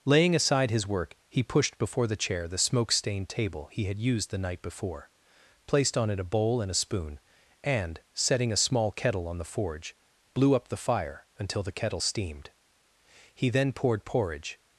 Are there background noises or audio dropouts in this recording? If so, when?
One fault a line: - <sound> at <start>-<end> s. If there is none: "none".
none